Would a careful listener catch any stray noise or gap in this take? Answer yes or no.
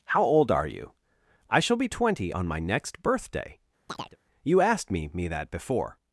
yes